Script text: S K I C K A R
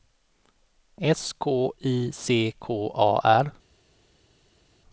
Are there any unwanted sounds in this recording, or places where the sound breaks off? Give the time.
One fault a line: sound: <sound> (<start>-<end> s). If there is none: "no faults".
no faults